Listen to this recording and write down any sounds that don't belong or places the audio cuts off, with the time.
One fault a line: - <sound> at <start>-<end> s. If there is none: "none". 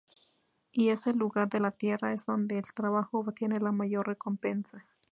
none